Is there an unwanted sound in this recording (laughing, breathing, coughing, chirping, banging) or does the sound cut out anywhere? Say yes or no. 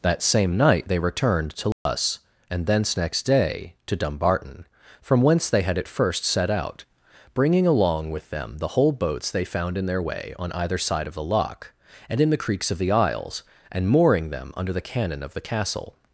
yes